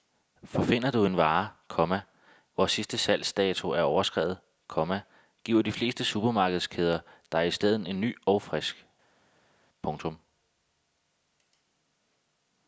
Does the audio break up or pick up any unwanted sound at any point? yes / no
no